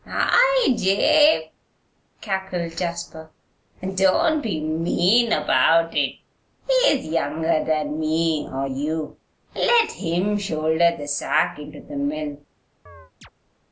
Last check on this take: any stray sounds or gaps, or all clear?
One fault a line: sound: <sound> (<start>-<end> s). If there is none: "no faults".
sound: chirp (12.9-13.3 s)